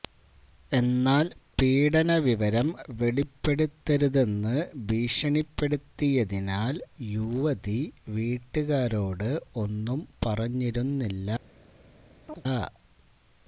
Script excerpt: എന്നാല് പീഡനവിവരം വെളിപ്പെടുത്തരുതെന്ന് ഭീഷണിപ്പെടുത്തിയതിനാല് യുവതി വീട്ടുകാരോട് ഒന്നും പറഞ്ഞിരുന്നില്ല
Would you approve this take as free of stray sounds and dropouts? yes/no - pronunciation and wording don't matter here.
no